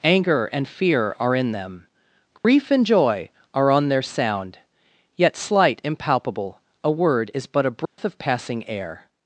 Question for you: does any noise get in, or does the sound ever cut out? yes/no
yes